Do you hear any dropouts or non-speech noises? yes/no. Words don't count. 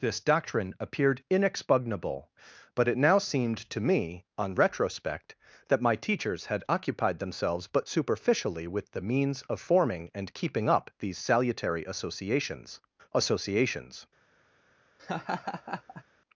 yes